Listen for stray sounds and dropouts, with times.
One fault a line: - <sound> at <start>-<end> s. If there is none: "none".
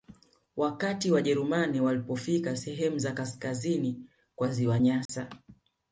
- dropout at 5.1-5.1 s